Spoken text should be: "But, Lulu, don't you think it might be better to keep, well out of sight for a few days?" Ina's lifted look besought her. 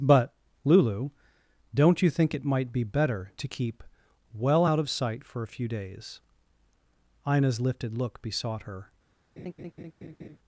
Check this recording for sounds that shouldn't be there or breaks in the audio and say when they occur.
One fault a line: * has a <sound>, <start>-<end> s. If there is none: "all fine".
* has a laugh, 9.4-10.4 s